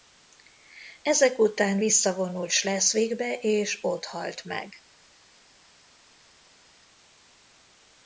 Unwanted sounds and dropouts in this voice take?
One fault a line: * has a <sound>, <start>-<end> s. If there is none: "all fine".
all fine